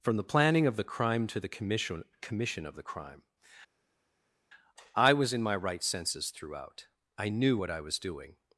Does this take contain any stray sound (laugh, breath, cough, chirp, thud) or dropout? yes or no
no